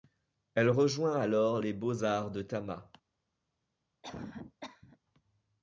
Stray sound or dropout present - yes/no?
yes